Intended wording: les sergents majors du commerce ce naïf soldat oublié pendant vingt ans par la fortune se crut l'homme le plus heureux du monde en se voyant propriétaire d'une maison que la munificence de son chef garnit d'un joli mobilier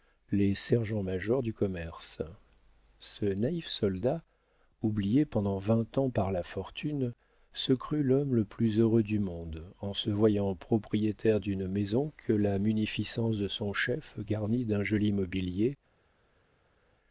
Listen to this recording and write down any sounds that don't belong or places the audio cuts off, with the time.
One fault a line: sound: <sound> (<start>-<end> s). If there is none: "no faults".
no faults